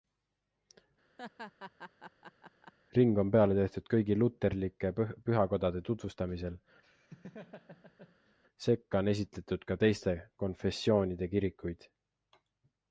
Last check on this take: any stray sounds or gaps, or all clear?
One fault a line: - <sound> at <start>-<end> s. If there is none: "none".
- laugh at 1.2-2.7 s
- laugh at 6.8-8.4 s